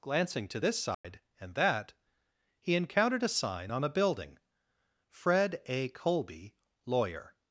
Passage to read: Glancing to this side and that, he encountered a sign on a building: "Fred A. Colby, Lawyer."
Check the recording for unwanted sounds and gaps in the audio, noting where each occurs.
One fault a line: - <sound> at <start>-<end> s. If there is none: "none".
- dropout at 0.9-1.0 s